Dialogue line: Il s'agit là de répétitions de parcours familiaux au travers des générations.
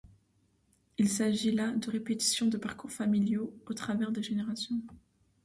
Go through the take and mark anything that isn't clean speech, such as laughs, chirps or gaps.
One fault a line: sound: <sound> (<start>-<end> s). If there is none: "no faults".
no faults